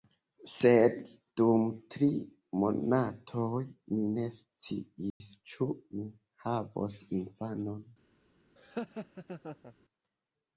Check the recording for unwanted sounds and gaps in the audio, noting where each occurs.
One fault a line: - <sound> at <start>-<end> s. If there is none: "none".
- dropout at 5.1-5.2 s
- laugh at 8.6-9.7 s